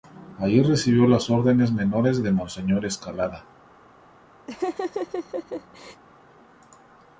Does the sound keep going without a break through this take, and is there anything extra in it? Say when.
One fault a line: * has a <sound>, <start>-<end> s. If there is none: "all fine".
* has a laugh, 4.5-6.0 s